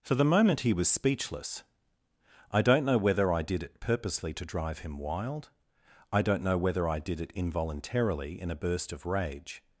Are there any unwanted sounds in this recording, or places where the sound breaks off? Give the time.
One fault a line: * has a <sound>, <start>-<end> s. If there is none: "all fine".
all fine